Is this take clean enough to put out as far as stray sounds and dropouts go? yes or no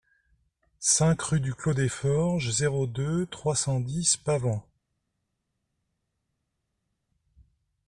yes